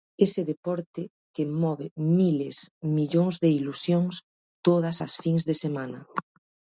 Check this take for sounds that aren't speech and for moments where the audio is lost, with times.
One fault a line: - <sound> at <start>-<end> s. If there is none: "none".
none